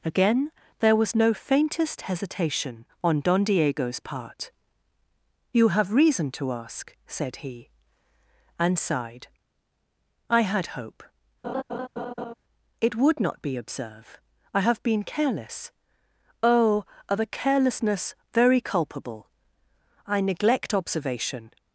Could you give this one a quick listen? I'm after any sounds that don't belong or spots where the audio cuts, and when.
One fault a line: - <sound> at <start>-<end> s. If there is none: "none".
- laugh at 11.4-12.3 s